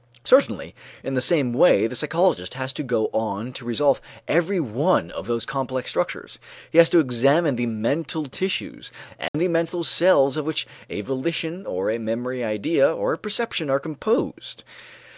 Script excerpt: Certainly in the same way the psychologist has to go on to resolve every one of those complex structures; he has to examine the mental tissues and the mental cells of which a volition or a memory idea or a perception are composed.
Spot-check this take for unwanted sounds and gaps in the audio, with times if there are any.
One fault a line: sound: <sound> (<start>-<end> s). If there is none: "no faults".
sound: dropout (9.3-9.3 s)